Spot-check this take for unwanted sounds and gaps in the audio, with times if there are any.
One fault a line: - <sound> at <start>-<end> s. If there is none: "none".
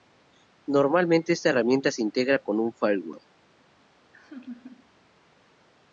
- laugh at 4.1-4.9 s